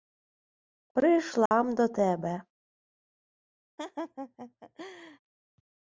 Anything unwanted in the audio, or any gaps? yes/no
yes